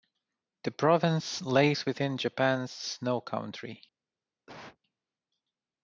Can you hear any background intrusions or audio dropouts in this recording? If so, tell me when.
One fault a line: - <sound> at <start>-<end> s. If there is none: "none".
- cough at 4.5-4.8 s